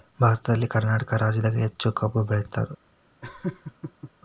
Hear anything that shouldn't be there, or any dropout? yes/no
yes